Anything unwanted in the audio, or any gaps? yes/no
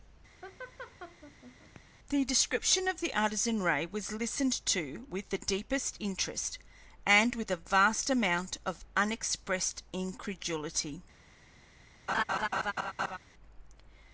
yes